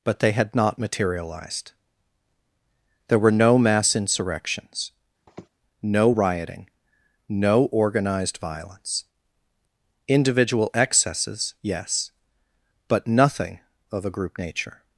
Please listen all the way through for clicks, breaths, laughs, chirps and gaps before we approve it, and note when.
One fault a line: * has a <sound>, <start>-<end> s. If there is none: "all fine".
* has a sniff, 5.3-5.5 s